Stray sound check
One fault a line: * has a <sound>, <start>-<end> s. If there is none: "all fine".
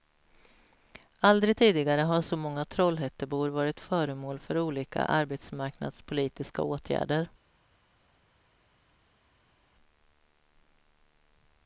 all fine